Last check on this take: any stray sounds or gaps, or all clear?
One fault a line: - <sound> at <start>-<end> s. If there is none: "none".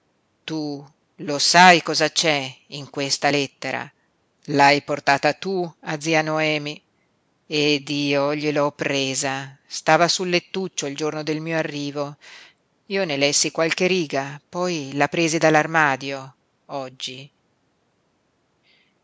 none